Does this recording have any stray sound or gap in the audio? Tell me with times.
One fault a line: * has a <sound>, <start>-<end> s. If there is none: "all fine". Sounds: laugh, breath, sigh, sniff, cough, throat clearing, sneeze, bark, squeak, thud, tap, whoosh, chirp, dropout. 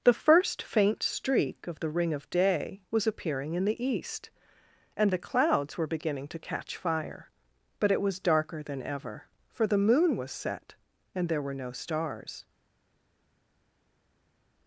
all fine